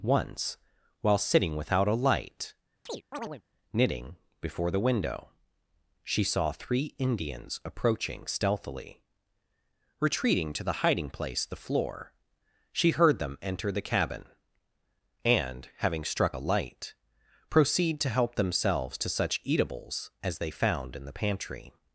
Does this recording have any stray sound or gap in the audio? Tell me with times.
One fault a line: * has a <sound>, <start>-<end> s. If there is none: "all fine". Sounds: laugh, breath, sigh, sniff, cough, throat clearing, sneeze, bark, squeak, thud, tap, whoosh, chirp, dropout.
* has a chirp, 2.9-3.4 s